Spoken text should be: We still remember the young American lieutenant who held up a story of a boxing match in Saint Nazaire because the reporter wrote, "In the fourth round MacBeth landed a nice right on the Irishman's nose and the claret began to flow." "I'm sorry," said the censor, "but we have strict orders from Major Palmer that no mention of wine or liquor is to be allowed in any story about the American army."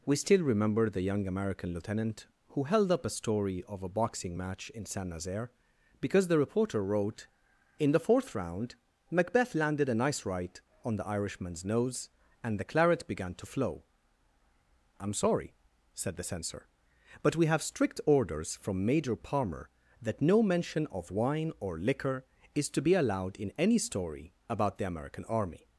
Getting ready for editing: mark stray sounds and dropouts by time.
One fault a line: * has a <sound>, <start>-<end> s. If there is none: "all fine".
all fine